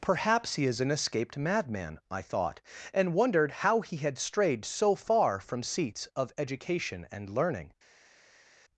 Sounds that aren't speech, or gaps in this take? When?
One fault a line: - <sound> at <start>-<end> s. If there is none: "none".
none